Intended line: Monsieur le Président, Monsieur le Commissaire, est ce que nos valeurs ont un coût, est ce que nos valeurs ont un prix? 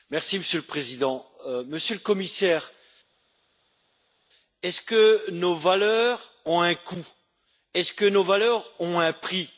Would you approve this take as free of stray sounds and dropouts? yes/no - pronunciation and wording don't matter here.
yes